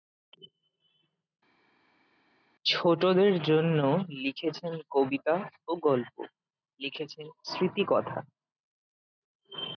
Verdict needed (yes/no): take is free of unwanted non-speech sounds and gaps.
yes